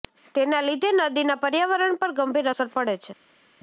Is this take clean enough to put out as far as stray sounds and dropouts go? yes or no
yes